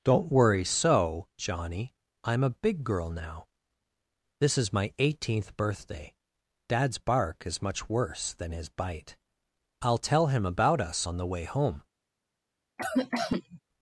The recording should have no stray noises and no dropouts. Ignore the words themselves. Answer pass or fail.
fail